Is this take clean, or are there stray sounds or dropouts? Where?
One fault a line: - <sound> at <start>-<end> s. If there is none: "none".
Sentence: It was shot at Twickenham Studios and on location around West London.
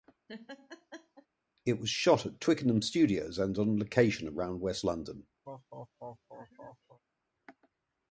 - laugh at 0.3-1.3 s
- laugh at 5.5-7.0 s